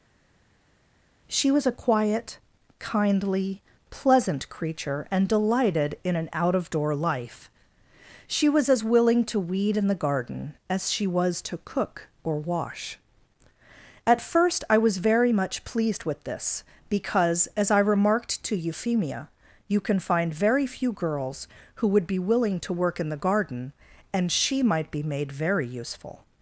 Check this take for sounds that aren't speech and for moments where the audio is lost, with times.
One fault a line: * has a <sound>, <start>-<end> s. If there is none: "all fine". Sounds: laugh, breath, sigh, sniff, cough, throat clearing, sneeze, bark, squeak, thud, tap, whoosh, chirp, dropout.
all fine